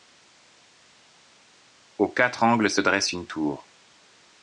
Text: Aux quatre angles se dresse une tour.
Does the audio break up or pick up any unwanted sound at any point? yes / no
no